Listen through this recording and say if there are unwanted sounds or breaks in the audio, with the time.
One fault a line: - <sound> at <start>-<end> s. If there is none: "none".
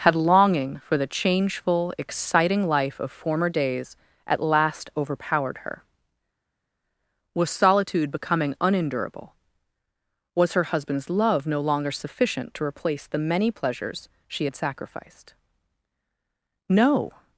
none